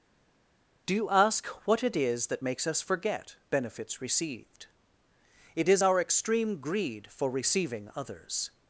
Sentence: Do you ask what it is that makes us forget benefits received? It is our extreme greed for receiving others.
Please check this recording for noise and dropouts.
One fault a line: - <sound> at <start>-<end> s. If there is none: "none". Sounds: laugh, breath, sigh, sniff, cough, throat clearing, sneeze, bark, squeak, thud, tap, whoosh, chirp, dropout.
none